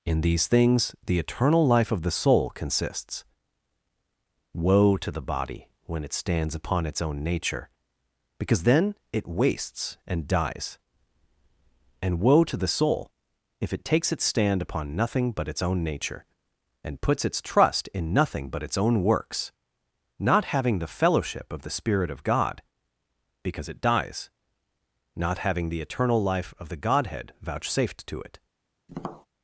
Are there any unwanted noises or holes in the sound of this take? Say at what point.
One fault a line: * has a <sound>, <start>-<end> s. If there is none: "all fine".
* has a tap, 28.9-29.3 s